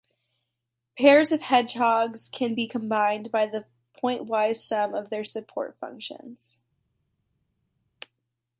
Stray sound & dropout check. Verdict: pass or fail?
pass